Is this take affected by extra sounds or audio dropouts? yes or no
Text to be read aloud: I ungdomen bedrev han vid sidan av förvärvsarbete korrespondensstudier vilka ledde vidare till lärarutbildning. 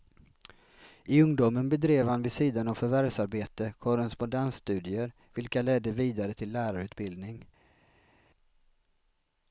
no